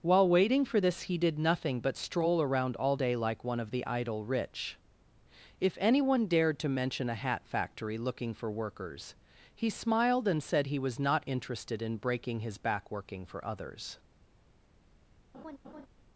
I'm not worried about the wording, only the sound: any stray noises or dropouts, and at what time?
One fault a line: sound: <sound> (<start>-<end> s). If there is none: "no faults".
sound: laugh (15.3-15.9 s)